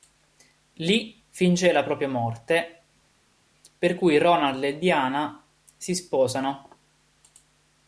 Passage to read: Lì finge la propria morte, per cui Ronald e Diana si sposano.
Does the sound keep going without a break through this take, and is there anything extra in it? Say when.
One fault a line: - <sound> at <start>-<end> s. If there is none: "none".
none